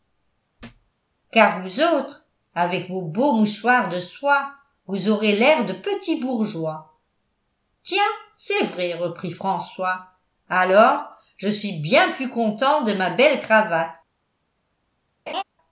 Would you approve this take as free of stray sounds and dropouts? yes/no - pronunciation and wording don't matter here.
no